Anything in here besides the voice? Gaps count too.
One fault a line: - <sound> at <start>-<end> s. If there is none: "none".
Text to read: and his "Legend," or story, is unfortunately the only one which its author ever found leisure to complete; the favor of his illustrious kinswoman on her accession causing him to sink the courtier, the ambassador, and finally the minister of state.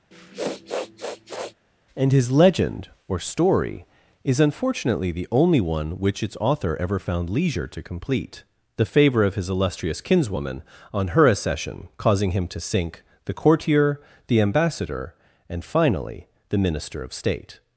- sniff at 0.1-1.5 s